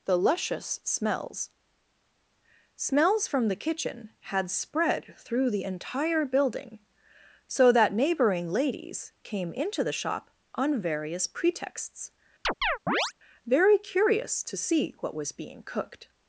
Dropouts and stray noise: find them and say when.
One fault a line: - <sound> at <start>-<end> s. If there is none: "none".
- chirp at 12.4-13.1 s